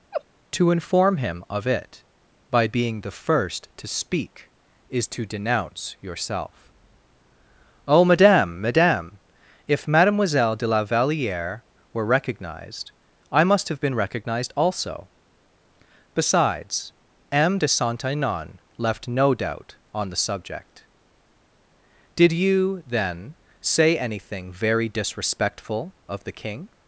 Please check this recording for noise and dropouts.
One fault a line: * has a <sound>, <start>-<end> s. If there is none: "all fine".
* has a laugh, 0.1-0.2 s